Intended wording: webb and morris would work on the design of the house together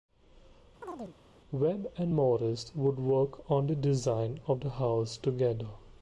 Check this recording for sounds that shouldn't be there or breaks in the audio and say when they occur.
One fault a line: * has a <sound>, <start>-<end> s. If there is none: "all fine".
* has a chirp, 0.8-1.2 s